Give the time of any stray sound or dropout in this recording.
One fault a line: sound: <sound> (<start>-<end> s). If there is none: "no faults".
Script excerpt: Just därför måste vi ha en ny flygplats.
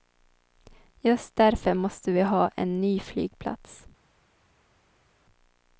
no faults